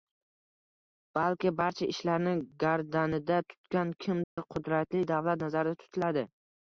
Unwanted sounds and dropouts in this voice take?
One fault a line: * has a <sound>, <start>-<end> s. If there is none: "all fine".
* has a dropout, 4.2-4.4 s